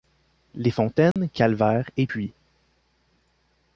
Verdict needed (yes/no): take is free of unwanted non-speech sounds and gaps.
no